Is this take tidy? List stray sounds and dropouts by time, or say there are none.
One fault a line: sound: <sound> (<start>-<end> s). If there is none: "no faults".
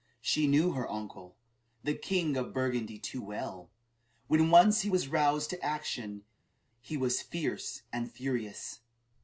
no faults